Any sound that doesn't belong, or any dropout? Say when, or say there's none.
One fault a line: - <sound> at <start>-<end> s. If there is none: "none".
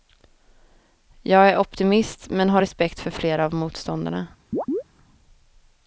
- chirp at 4.5-4.8 s